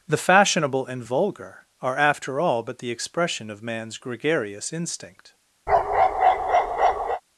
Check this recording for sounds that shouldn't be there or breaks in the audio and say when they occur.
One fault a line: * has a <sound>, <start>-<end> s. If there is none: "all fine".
* has a bark, 5.7-7.2 s